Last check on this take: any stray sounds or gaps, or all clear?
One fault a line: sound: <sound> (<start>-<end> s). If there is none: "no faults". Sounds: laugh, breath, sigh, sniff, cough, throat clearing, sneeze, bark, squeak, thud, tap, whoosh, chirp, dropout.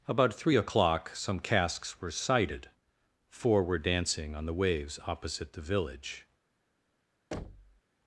sound: thud (7.3-7.8 s)